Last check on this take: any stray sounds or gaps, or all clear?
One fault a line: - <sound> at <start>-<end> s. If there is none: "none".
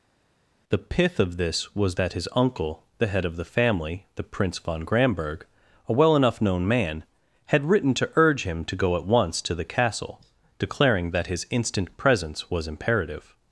none